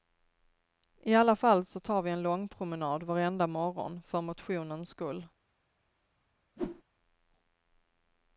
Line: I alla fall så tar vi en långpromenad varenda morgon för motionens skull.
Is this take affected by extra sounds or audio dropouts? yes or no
yes